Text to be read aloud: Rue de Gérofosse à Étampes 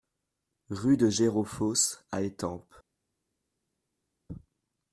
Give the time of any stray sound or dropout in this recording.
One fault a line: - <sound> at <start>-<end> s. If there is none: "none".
none